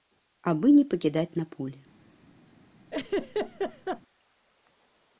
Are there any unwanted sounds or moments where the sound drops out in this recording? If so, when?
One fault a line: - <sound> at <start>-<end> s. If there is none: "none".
- laugh at 2.9-4.0 s